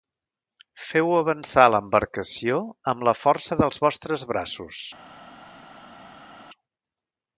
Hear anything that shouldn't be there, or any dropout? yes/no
no